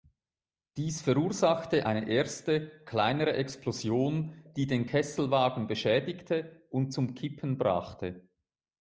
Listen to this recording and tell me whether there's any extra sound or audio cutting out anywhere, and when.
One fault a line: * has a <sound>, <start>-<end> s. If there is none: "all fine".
all fine